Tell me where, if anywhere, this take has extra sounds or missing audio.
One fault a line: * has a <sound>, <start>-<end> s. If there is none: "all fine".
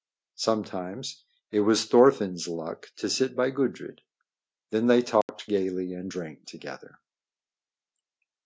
* has a dropout, 5.2-5.3 s